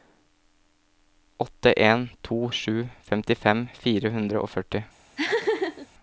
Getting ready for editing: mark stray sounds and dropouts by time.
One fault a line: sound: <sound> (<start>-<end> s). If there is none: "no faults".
sound: laugh (5.2-5.9 s)